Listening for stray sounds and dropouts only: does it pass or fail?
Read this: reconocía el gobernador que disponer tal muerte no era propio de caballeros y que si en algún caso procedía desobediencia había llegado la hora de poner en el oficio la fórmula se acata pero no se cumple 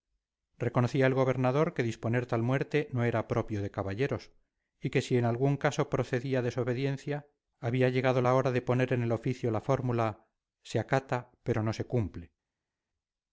pass